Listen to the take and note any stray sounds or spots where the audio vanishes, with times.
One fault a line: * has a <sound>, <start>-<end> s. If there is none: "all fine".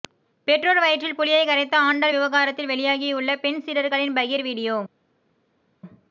all fine